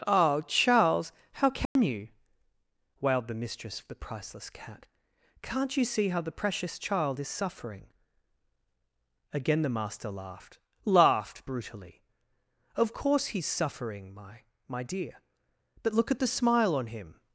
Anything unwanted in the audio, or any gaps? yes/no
yes